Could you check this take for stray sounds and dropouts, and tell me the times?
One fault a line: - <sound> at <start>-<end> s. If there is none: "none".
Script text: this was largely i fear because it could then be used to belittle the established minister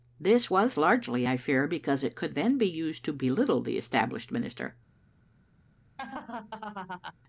- laugh at 6.0-7.1 s